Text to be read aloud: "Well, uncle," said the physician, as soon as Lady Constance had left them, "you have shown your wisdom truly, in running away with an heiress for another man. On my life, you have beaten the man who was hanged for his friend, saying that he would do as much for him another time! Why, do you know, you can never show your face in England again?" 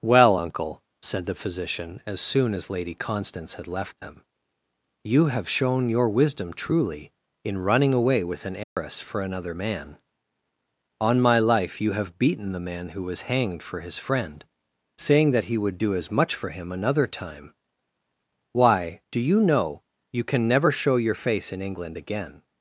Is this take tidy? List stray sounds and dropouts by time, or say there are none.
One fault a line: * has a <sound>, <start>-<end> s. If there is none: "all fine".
* has a dropout, 8.6-8.8 s